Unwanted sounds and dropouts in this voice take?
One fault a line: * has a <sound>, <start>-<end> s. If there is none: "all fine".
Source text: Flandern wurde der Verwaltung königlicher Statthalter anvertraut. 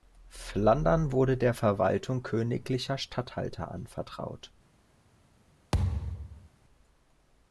* has a thud, 5.7-6.5 s